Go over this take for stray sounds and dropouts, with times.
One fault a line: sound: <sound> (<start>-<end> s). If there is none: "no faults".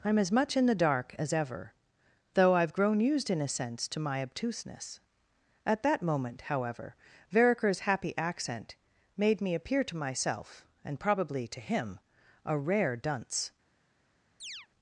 sound: chirp (14.4-14.7 s)